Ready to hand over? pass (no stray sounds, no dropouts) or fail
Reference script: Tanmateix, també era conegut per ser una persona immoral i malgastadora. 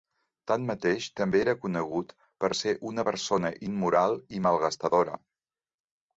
pass